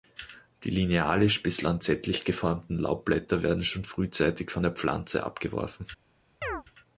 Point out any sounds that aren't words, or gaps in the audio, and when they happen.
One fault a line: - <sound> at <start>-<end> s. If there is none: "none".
- chirp at 6.4-6.6 s